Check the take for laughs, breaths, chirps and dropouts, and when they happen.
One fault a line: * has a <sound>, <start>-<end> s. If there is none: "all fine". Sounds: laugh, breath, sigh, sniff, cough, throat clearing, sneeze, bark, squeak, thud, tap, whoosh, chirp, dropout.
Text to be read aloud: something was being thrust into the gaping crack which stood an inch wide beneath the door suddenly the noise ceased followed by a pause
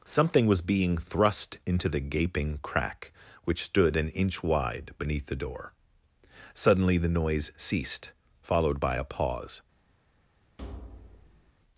* has a thud, 10.6-11.5 s